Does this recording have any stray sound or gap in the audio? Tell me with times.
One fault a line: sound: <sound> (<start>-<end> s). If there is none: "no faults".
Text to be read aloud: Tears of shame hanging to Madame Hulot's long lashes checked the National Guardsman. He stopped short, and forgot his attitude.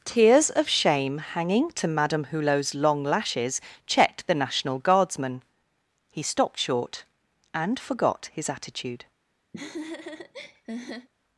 sound: laugh (9.5-11.1 s)